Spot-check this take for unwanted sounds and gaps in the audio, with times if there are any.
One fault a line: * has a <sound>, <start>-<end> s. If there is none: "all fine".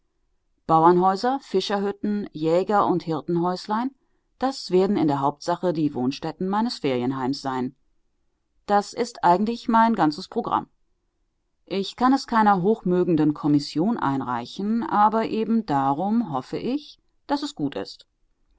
all fine